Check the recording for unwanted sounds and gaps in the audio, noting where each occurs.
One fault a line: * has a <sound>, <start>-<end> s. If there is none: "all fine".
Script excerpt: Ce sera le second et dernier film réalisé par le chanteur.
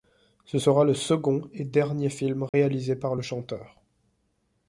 * has a dropout, 2.5-2.5 s